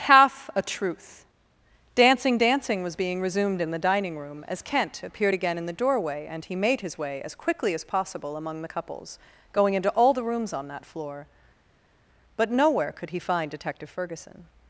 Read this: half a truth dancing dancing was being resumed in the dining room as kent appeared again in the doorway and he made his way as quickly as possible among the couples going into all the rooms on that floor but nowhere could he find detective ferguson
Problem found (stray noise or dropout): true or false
false